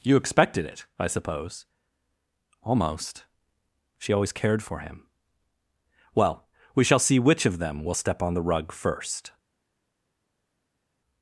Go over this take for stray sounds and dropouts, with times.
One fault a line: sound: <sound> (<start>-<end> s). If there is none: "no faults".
no faults